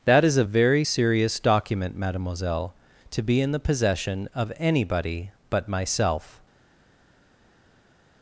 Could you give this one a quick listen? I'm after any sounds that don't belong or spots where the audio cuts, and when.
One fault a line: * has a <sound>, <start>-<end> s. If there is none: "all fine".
all fine